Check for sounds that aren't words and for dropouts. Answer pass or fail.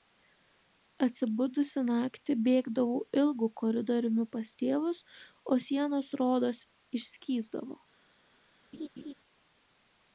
fail